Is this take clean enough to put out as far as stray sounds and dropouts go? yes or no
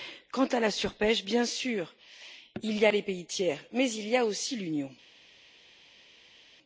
yes